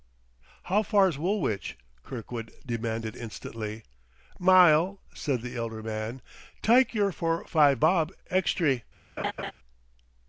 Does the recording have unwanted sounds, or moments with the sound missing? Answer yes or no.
yes